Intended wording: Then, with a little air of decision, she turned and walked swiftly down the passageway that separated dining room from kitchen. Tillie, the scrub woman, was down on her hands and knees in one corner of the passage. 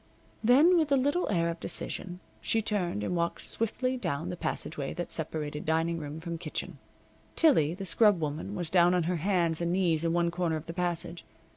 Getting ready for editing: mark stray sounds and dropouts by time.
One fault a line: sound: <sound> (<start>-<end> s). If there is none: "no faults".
no faults